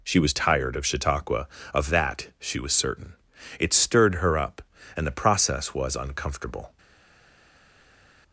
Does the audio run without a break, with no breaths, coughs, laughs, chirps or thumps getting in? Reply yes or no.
yes